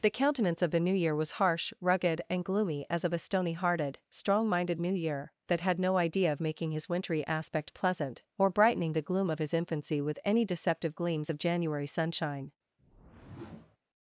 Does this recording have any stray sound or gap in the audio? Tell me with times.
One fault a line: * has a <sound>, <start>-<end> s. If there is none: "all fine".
* has a whoosh, 12.8-13.8 s